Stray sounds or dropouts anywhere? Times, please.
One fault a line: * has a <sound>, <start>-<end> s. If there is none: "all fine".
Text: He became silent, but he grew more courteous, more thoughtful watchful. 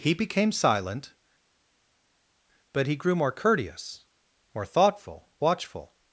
all fine